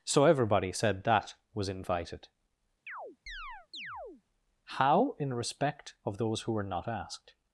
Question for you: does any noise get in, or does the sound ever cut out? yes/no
yes